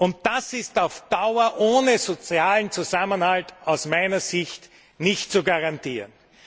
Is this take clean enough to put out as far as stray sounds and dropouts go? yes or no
yes